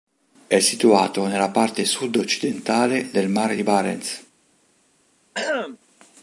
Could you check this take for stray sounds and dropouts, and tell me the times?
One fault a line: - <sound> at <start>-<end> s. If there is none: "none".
- throat clearing at 5.3-5.8 s